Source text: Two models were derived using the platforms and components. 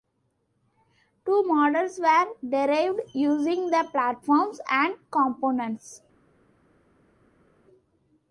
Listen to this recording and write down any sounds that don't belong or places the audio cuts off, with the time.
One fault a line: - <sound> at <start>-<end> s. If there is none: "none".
none